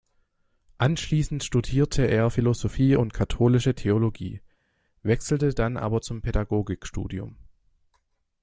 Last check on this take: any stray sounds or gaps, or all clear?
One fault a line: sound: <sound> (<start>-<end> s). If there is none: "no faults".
no faults